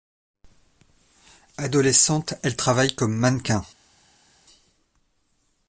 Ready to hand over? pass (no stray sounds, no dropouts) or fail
pass